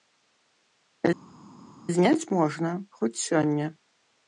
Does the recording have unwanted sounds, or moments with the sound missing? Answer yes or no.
no